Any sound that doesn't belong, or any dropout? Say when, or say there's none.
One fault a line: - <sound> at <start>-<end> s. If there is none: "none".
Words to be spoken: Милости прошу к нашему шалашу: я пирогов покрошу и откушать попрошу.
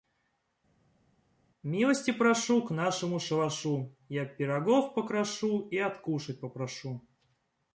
none